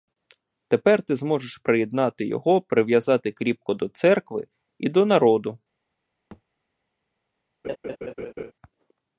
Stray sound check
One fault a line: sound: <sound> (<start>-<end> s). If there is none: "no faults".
sound: thud (6.3-6.4 s)
sound: laugh (7.6-8.5 s)